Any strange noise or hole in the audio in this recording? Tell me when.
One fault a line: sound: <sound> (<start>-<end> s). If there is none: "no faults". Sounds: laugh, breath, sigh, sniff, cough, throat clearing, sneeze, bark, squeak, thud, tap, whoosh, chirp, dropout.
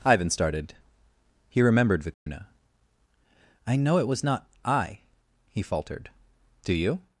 sound: dropout (2.1-2.3 s)